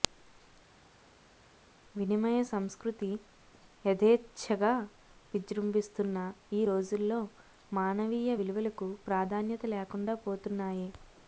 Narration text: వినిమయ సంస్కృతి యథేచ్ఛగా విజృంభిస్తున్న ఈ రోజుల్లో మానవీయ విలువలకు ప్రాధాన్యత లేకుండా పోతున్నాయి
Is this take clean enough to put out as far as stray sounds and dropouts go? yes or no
yes